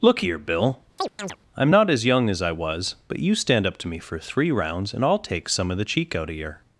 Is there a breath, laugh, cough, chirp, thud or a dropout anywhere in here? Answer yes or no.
yes